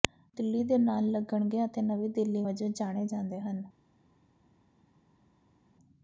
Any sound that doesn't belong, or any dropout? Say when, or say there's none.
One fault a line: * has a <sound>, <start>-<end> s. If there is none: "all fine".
all fine